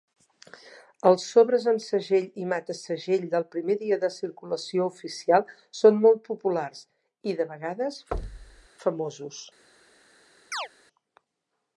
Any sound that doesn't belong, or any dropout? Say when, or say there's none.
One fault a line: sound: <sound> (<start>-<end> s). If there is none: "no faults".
sound: thud (8.1-8.7 s)
sound: chirp (10.5-10.7 s)